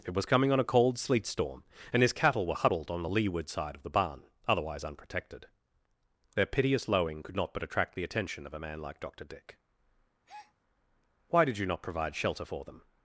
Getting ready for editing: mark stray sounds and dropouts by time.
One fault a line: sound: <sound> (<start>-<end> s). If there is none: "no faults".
sound: breath (10.3-10.5 s)